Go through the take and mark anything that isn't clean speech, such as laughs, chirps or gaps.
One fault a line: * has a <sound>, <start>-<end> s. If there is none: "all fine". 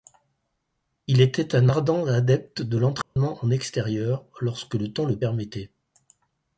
* has a dropout, 3.0-3.2 s